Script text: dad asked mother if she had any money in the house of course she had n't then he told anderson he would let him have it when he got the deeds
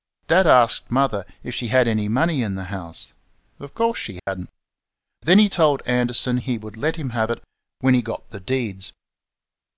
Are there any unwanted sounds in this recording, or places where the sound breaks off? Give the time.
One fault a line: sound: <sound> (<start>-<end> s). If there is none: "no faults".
sound: dropout (4.2-4.3 s)